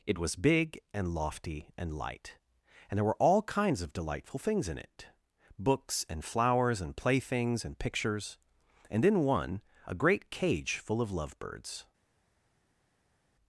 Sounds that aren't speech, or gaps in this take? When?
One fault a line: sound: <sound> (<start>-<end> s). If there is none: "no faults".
no faults